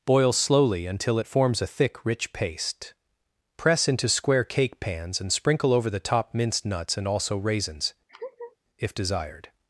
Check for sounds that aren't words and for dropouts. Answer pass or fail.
fail